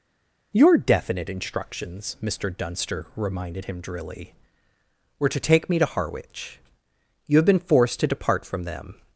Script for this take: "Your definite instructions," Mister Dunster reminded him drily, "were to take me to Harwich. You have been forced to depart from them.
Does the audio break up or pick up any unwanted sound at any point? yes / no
no